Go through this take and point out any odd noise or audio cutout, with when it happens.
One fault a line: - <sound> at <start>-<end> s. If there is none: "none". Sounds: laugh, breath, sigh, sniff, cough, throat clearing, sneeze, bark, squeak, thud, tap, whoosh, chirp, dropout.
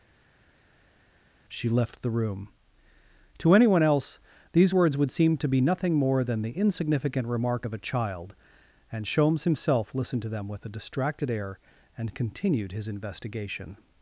none